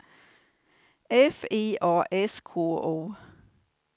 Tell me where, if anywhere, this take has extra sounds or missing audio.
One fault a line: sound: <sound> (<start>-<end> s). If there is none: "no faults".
no faults